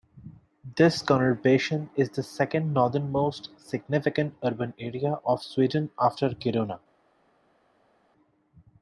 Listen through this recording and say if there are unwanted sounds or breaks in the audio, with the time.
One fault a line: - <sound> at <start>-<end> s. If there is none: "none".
none